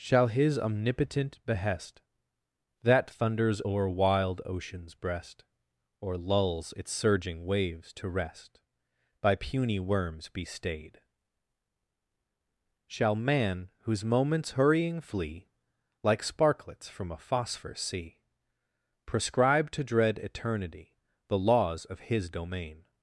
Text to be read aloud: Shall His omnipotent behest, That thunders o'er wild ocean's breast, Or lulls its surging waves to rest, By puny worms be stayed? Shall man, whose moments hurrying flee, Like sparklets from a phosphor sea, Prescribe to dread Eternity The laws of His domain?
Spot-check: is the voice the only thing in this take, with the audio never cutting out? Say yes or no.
yes